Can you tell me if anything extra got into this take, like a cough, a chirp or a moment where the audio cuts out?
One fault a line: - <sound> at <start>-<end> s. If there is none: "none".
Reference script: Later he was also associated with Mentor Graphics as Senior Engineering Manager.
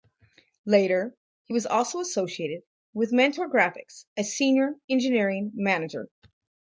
none